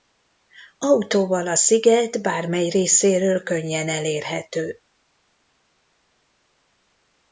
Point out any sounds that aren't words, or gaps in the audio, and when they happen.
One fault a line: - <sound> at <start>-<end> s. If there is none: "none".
none